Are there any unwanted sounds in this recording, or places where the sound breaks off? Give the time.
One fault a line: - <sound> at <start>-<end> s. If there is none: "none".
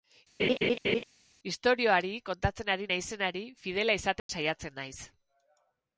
- laugh at 0.4-1.0 s
- dropout at 4.2-4.3 s